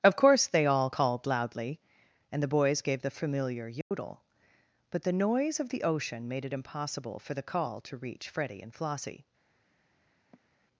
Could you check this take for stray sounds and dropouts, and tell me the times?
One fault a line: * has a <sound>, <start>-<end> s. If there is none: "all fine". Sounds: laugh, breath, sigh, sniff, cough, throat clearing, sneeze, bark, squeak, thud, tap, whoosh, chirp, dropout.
* has a dropout, 3.8-3.9 s
* has a sigh, 10.3-10.5 s